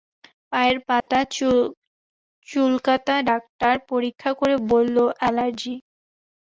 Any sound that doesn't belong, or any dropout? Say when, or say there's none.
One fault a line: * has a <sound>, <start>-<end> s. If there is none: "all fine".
* has a dropout, 1.0-1.1 s